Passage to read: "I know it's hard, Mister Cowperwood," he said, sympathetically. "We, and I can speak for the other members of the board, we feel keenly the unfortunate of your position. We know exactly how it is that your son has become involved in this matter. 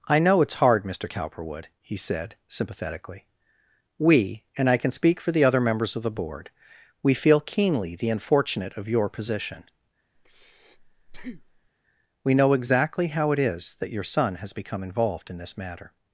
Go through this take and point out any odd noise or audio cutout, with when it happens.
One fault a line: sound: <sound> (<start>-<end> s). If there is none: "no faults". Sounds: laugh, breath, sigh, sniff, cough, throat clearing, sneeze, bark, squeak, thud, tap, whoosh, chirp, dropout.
sound: breath (10.2-11.7 s)